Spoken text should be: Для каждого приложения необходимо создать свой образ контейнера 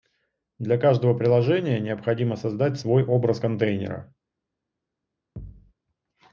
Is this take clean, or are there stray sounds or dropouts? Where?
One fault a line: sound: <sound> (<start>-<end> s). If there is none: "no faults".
sound: thud (5.4-5.7 s)